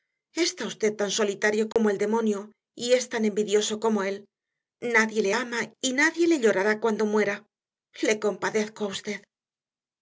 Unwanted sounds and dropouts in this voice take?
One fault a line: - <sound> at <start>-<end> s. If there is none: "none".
- dropout at 1.7-1.8 s